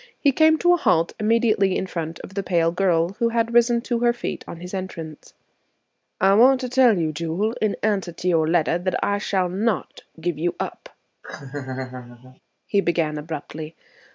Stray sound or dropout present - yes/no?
yes